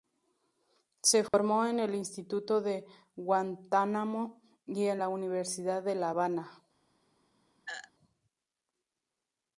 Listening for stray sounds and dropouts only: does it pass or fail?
fail